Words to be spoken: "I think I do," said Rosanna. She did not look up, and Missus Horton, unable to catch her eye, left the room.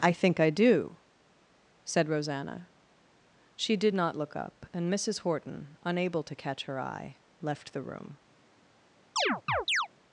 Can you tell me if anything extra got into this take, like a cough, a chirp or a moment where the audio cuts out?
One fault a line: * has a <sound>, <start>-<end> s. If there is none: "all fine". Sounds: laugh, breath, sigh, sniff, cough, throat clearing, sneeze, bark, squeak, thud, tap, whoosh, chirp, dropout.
* has a chirp, 9.2-9.9 s